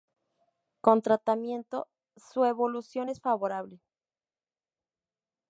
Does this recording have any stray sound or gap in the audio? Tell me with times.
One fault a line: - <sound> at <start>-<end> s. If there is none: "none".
none